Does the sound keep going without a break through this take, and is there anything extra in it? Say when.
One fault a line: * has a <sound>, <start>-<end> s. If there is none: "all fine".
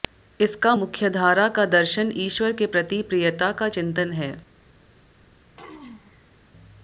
* has a throat clearing, 5.5-6.4 s